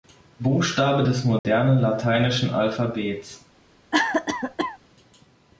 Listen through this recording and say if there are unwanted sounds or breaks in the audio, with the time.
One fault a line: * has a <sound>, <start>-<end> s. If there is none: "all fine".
* has a dropout, 1.4-1.4 s
* has a cough, 3.9-4.8 s